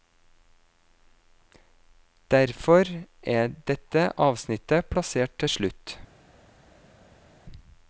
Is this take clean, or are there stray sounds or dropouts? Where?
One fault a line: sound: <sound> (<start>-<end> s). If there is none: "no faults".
no faults